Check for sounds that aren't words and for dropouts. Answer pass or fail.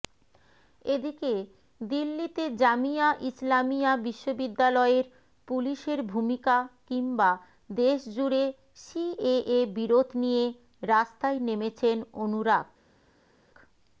pass